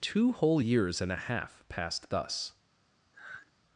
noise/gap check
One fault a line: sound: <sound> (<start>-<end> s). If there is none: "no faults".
sound: sigh (3.1-3.5 s)